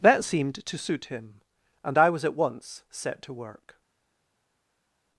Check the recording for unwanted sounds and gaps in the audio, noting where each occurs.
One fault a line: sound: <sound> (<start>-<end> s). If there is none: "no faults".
no faults